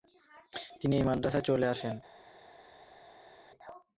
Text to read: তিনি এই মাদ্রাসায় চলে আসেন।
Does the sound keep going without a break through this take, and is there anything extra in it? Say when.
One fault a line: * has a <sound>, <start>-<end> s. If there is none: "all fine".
all fine